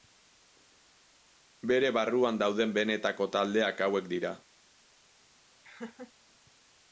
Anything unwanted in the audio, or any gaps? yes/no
yes